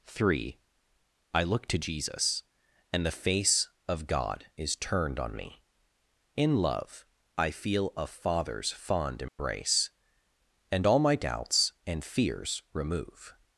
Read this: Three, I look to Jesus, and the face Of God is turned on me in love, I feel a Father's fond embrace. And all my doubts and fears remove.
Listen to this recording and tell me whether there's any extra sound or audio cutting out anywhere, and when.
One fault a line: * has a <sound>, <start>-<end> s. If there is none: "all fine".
* has a dropout, 9.3-9.4 s